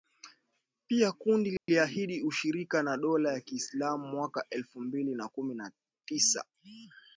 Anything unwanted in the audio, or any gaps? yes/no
yes